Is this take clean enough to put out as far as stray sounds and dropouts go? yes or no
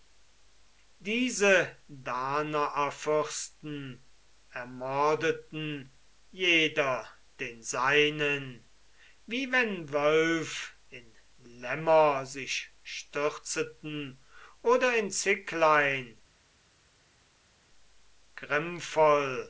yes